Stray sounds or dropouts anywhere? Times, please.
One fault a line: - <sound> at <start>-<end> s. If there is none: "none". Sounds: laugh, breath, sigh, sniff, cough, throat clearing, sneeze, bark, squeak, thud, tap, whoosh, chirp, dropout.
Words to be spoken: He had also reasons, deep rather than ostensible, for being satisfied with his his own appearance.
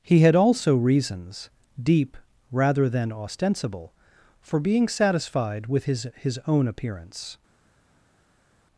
none